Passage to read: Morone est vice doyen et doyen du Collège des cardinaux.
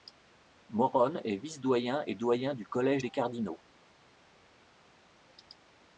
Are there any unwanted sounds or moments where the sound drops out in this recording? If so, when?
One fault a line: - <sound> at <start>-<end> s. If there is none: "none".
none